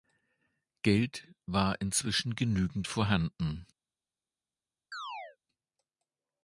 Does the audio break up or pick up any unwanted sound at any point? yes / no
yes